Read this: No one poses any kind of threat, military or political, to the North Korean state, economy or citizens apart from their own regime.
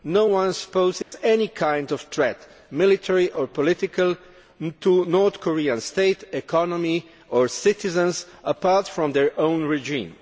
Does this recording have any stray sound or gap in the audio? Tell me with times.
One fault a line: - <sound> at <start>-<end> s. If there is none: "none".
- dropout at 1.0-1.1 s